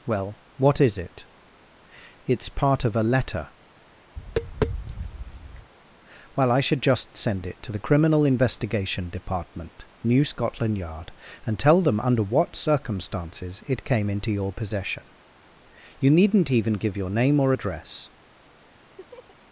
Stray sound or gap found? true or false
true